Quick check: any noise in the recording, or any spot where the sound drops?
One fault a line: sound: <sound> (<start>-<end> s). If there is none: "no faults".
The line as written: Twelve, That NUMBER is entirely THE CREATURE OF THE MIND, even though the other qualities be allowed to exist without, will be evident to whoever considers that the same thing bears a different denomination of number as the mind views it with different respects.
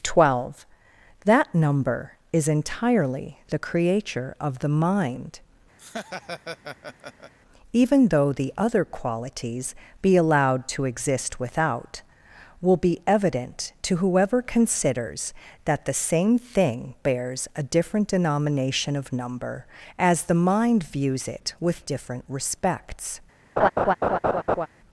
sound: laugh (5.8-7.3 s)
sound: laugh (23.6-24.7 s)